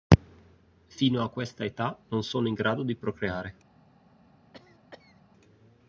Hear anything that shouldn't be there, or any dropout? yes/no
yes